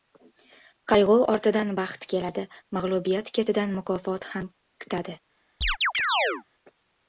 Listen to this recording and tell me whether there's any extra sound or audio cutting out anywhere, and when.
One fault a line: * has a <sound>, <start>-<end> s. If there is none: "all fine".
* has a chirp, 5.6-6.4 s